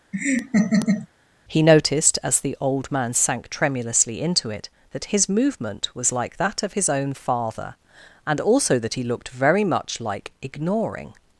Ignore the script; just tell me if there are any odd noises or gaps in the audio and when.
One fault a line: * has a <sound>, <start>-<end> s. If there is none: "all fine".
* has a laugh, 0.1-1.1 s